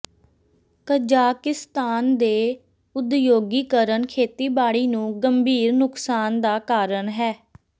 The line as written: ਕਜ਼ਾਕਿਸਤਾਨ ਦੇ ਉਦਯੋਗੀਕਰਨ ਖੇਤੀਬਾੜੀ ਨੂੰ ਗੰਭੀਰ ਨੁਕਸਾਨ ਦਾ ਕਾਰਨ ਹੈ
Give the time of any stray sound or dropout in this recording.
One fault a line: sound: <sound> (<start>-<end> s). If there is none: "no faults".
no faults